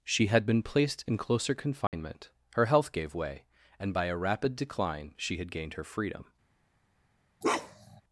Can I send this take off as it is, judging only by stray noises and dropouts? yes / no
no